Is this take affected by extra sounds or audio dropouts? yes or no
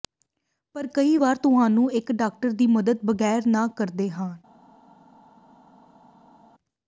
no